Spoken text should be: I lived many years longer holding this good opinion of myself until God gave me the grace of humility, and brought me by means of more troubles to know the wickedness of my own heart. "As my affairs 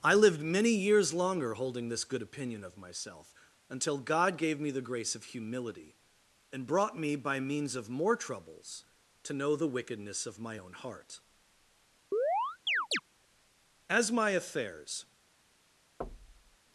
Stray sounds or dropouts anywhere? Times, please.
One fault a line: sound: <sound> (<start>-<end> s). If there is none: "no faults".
sound: chirp (12.1-13.0 s)
sound: thud (16.0-16.6 s)